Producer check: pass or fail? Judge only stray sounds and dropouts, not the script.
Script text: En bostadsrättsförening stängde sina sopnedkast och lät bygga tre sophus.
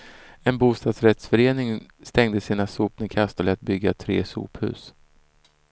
pass